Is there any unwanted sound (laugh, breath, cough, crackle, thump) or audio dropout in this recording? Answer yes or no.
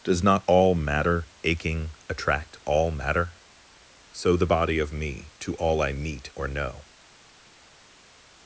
no